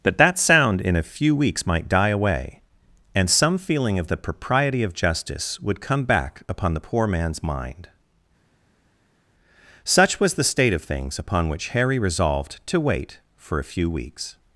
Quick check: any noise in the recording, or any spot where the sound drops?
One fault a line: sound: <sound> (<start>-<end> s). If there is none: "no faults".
no faults